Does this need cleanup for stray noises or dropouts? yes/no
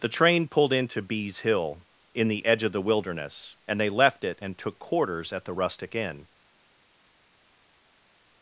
no